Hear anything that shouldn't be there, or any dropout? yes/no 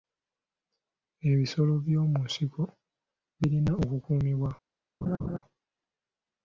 yes